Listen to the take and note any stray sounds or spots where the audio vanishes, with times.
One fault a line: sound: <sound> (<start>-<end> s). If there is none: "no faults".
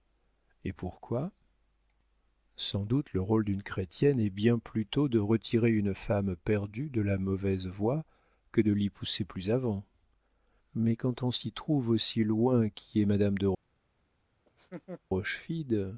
sound: laugh (14.5-15.0 s)